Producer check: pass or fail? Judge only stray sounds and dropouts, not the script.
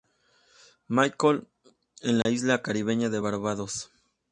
fail